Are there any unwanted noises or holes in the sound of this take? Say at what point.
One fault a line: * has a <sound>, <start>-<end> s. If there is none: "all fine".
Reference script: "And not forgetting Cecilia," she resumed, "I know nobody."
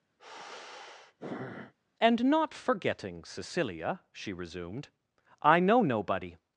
* has a sigh, 0.2-1.7 s